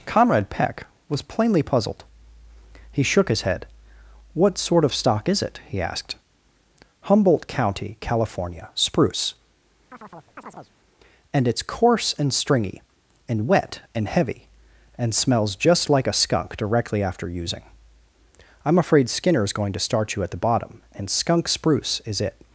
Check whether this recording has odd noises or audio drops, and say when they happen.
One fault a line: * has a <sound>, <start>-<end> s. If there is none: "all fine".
* has a chirp, 9.9-10.7 s